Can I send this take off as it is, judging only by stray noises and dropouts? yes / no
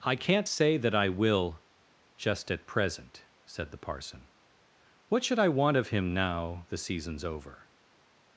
yes